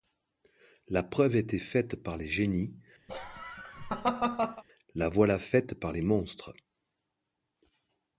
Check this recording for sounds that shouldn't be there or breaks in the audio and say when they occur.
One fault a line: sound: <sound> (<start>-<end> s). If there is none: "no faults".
sound: laugh (3.1-4.6 s)